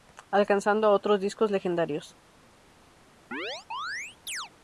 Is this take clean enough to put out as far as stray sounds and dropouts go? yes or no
no